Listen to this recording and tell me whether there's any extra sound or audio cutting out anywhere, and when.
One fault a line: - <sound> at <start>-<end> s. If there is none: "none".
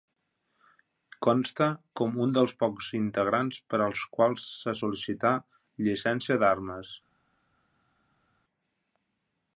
none